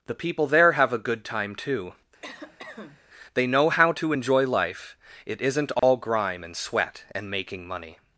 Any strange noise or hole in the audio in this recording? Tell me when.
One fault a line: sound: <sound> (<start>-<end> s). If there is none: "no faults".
sound: cough (2.2-3.0 s)
sound: dropout (5.8-5.8 s)